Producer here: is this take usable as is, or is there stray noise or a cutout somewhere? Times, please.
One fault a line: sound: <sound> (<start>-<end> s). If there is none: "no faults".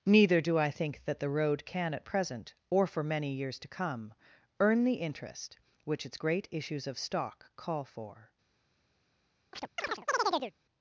sound: chirp (9.5-10.5 s)